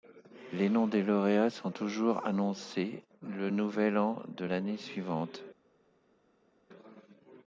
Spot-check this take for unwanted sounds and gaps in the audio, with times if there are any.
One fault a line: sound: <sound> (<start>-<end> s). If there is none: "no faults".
no faults